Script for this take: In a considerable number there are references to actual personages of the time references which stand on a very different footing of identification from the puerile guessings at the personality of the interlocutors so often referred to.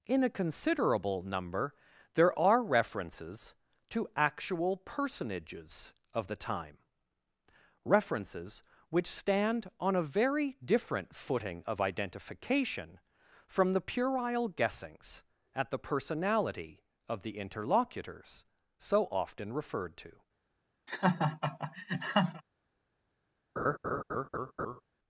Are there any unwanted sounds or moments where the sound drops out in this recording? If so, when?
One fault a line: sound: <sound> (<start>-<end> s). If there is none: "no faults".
sound: laugh (20.9-22.4 s)
sound: laugh (23.6-24.8 s)